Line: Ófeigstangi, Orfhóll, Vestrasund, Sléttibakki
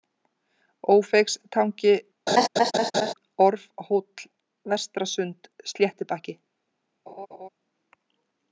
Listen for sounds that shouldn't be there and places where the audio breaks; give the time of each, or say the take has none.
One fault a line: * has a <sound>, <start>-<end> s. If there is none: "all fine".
* has a laugh, 2.3-3.1 s
* has a laugh, 7.1-7.5 s